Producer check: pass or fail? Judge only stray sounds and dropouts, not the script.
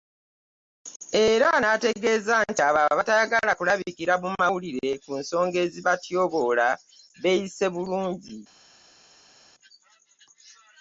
pass